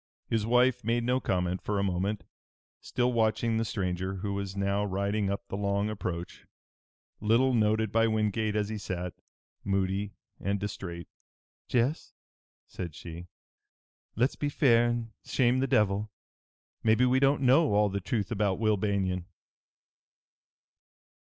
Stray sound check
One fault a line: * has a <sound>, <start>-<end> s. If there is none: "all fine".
all fine